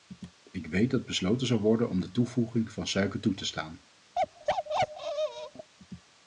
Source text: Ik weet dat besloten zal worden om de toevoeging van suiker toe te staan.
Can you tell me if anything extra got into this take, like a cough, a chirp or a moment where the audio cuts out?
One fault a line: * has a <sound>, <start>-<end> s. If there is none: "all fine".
* has a bark, 4.2-5.7 s